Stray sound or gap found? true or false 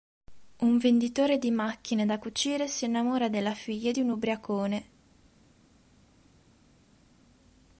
false